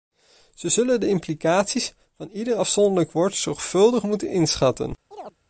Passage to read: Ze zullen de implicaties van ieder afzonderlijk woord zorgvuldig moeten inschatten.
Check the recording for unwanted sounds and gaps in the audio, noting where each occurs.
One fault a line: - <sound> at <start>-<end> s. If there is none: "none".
- chirp at 5.1-5.4 s